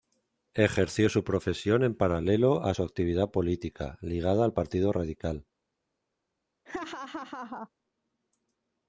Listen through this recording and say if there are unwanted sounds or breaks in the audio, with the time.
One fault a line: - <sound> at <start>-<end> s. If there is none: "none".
- laugh at 6.7-7.7 s